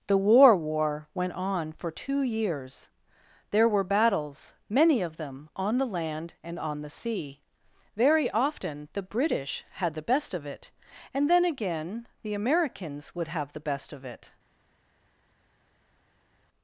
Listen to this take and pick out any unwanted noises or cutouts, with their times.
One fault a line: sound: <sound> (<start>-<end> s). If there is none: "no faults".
no faults